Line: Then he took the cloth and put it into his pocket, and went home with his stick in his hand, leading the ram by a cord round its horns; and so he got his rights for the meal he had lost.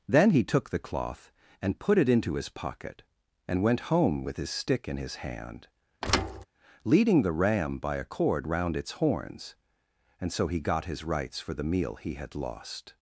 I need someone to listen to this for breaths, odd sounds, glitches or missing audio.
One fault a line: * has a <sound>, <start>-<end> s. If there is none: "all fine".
* has a thud, 6.0-6.5 s